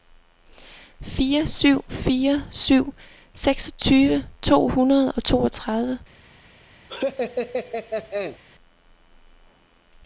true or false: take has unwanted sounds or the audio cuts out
true